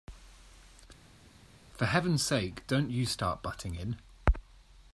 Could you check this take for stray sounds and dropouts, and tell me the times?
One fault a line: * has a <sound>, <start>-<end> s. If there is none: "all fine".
all fine